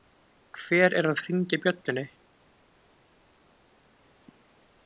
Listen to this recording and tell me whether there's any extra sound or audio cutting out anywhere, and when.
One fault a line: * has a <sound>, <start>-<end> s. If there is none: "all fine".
all fine